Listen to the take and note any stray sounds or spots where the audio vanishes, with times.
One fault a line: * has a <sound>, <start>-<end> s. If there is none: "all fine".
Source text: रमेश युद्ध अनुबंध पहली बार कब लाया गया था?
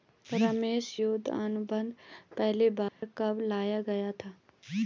* has a dropout, 2.9-3.0 s